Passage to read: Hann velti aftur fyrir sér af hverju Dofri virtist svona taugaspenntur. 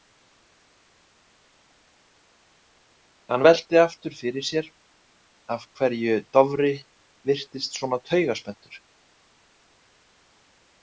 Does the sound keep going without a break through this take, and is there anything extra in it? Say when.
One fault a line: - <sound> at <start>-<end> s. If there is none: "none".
none